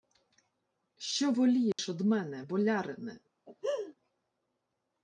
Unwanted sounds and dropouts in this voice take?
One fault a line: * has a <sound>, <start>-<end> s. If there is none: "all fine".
* has a dropout, 1.7-1.8 s
* has a laugh, 3.5-3.9 s